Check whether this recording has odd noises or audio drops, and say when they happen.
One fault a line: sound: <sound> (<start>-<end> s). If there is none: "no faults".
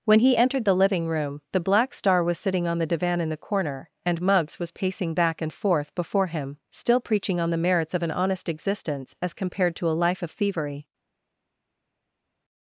no faults